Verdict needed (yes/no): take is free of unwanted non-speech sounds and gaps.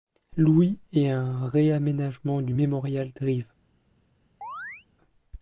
no